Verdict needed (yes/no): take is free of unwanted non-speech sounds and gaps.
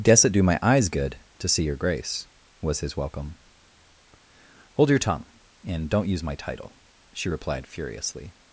yes